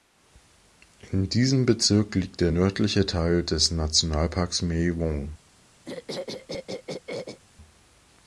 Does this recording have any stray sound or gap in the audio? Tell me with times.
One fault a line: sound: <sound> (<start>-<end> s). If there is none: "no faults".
sound: throat clearing (5.9-7.4 s)